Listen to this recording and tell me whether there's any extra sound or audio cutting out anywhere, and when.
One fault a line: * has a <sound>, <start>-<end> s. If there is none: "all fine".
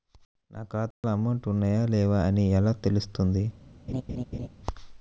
* has a dropout, 0.9-1.0 s
* has a laugh, 3.9-4.5 s